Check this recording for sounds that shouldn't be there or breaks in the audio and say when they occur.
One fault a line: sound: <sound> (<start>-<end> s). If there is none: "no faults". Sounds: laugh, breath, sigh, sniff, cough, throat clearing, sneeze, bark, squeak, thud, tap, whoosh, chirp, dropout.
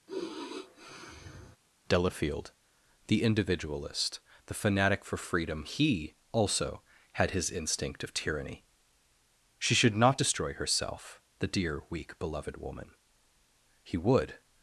sound: sigh (0.1-1.6 s)